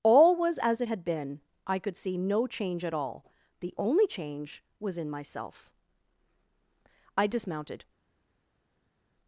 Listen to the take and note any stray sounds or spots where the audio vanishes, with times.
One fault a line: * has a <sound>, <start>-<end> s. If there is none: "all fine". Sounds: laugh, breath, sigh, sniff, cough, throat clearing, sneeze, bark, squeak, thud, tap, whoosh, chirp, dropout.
all fine